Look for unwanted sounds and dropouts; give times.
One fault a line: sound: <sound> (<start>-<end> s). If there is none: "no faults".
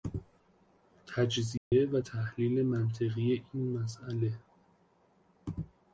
sound: dropout (1.6-1.7 s)